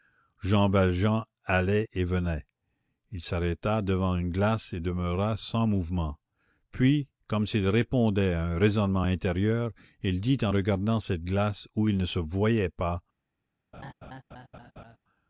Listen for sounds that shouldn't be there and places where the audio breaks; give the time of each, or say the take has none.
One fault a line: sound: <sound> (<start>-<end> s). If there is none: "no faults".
sound: laugh (13.7-15.0 s)